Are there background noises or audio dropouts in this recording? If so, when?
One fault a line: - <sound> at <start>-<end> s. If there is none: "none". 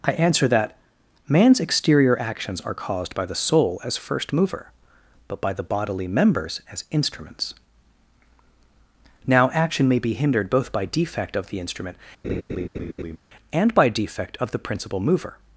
- laugh at 12.2-13.2 s